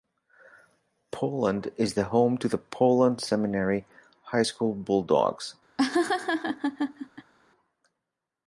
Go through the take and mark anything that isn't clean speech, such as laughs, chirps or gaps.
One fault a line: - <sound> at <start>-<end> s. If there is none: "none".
- laugh at 5.8-7.3 s